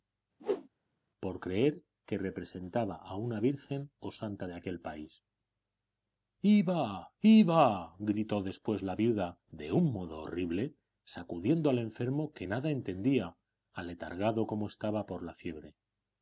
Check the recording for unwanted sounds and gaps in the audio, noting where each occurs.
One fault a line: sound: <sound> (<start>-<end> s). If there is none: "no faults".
sound: whoosh (0.4-0.7 s)